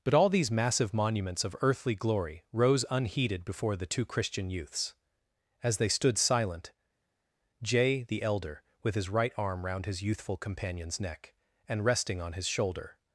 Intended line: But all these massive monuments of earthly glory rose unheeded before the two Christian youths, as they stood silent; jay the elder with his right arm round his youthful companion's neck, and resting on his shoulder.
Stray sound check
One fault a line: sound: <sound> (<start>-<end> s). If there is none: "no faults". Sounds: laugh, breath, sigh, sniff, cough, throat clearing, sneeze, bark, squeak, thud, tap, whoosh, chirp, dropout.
no faults